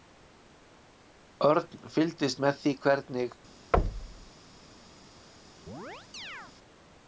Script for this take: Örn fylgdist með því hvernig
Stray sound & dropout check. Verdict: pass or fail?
fail